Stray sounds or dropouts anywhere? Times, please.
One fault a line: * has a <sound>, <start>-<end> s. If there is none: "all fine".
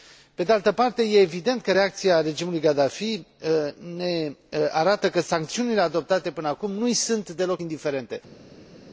all fine